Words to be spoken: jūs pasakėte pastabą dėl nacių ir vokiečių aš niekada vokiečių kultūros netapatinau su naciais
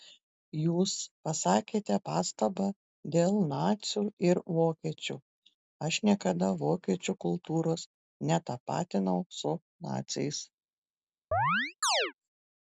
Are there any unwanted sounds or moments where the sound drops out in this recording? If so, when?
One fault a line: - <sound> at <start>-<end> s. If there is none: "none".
- chirp at 11.3-12.1 s